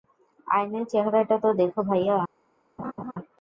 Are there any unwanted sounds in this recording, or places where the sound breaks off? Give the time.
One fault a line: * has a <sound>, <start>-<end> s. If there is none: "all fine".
* has a laugh, 2.8-3.1 s